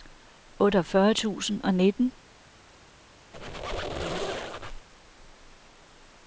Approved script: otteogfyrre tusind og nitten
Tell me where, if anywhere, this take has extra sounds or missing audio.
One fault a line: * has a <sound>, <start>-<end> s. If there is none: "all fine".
* has a squeak, 3.3-4.9 s